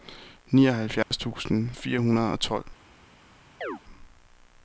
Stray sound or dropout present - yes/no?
yes